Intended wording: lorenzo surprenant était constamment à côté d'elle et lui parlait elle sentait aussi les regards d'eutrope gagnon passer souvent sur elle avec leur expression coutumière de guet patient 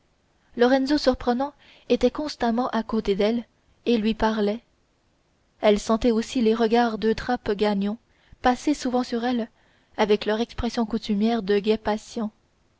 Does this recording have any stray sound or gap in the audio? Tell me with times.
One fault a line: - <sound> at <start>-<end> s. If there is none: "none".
none